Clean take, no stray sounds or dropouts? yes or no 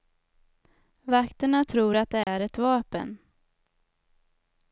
no